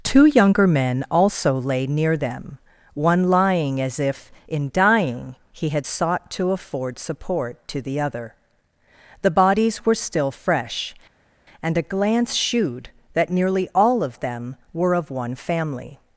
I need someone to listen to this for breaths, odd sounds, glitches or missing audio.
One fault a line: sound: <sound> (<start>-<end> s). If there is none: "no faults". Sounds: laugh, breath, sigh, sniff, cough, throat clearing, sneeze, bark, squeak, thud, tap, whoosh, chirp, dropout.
no faults